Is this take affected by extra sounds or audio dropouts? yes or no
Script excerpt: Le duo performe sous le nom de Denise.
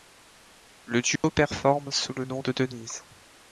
yes